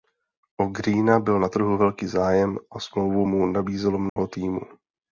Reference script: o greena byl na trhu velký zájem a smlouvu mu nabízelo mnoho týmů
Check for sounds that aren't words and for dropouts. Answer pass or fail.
fail